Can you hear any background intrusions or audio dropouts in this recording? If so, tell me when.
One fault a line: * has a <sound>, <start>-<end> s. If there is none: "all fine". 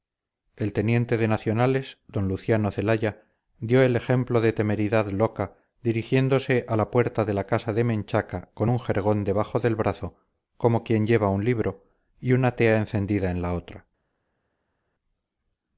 all fine